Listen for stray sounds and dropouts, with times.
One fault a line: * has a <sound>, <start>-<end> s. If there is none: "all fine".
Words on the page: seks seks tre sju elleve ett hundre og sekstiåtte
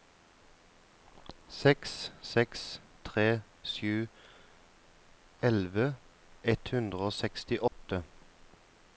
* has a dropout, 7.7-7.7 s